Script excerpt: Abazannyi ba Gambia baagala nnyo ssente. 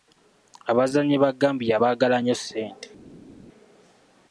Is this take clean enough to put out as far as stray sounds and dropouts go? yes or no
yes